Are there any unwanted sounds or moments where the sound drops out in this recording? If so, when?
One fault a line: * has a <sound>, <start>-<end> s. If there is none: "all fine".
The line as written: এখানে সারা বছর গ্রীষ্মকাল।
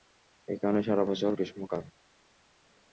all fine